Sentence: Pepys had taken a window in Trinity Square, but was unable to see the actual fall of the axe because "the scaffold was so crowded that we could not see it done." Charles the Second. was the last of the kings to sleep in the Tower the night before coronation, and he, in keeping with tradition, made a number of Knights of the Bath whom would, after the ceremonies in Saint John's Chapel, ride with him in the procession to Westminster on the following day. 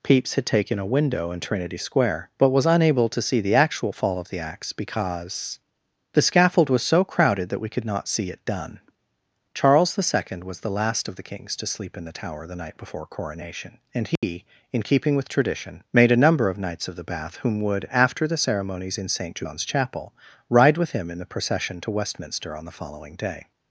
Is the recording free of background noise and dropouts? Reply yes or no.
no